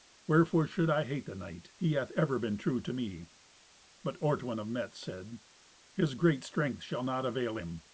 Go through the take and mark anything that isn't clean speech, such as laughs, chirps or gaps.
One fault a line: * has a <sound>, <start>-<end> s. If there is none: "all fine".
all fine